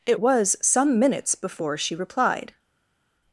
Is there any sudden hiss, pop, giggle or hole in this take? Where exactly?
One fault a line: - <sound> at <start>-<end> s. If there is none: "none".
none